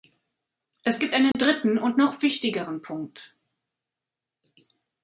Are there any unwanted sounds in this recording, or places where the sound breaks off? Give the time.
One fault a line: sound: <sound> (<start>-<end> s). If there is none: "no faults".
sound: dropout (1.3-1.3 s)